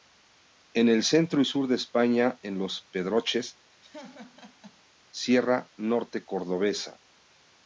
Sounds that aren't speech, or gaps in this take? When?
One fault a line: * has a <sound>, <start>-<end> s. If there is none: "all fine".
* has a laugh, 3.8-4.8 s